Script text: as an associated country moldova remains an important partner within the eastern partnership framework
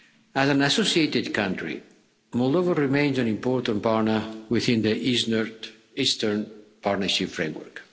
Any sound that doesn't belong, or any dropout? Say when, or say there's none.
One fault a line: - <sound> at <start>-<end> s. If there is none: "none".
none